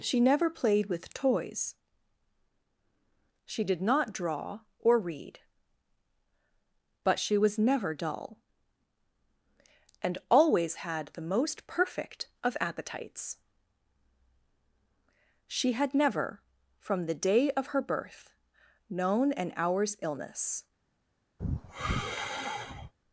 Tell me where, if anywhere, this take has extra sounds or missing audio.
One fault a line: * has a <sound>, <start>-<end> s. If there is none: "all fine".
* has a sigh, 21.4-22.9 s